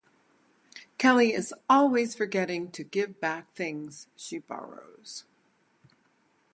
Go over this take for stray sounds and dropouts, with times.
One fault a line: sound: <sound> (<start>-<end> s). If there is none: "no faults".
no faults